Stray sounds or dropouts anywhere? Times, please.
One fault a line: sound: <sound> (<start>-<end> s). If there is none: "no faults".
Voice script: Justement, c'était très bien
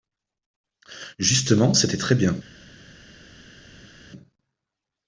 no faults